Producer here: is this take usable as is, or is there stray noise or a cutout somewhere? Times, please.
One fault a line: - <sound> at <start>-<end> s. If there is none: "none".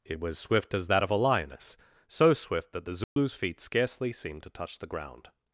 - dropout at 3.0-3.2 s